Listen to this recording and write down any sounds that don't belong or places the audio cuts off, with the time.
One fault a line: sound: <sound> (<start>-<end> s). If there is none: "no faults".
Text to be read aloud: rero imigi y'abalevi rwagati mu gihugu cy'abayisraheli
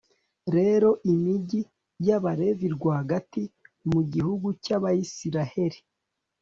no faults